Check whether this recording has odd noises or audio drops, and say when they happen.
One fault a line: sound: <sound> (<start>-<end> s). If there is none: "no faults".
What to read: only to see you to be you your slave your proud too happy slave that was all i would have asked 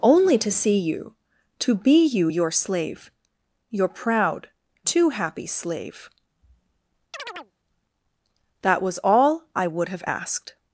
sound: chirp (7.1-7.5 s)